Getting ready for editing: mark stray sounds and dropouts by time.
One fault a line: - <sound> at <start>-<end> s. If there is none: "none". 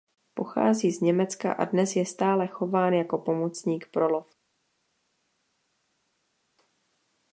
none